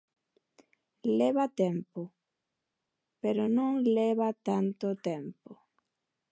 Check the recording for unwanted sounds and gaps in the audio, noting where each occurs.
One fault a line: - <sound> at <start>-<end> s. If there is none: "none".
none